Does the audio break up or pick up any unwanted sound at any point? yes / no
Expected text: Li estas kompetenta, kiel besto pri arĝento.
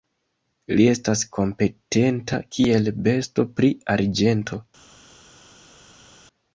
no